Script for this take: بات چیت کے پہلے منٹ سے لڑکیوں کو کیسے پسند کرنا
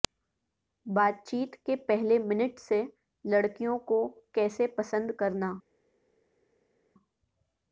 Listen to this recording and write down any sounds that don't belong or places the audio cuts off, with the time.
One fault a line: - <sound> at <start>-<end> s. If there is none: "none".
none